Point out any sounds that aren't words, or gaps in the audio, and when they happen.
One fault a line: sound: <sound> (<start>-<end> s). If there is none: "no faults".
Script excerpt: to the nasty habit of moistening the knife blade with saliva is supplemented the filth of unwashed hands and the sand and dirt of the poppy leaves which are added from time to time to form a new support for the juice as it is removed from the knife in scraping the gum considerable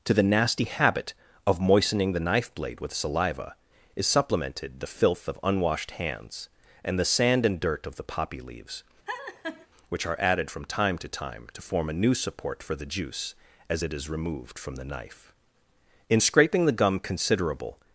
sound: laugh (9.1-9.7 s)